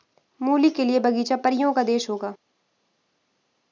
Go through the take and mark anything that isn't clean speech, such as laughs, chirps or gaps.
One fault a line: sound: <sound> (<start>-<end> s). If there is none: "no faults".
no faults